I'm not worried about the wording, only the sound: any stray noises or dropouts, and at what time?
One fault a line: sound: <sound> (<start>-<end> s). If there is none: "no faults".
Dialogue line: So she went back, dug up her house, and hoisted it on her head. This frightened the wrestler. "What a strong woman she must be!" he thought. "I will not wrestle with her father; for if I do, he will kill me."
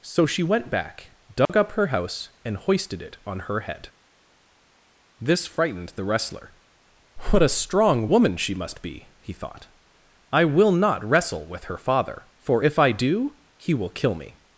sound: dropout (1.5-1.5 s)